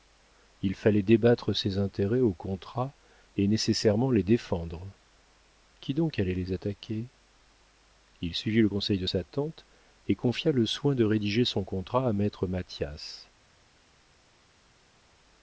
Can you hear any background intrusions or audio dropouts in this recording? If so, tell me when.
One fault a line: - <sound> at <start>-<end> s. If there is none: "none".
none